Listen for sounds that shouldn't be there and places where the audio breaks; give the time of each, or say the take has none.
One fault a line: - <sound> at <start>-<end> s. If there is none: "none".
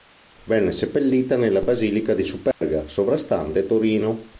- dropout at 2.5-2.6 s